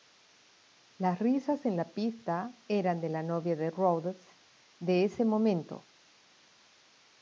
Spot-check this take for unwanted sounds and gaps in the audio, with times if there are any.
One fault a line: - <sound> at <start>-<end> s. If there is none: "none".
none